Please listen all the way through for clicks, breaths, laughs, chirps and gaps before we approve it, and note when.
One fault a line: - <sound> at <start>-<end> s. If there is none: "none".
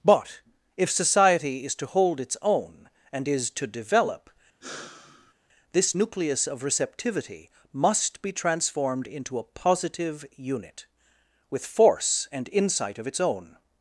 - sigh at 4.6-5.3 s